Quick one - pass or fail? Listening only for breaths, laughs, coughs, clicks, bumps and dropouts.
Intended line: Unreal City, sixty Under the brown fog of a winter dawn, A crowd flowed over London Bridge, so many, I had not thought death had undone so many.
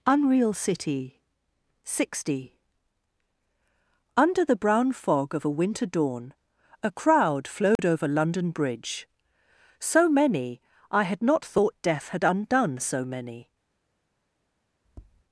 fail